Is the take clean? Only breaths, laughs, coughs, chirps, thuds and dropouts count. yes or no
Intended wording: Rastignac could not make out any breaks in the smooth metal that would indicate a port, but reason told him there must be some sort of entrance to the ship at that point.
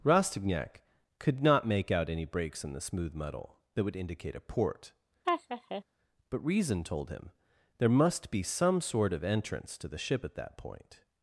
no